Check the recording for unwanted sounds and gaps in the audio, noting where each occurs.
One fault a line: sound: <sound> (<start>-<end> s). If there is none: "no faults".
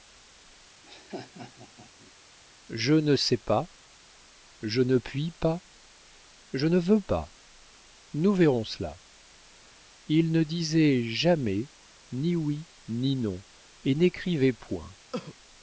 sound: laugh (0.8-2.1 s)
sound: cough (15.1-15.3 s)